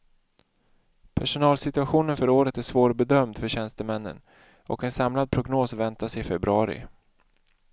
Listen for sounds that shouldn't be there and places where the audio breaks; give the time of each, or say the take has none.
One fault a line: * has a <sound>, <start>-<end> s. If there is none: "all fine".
all fine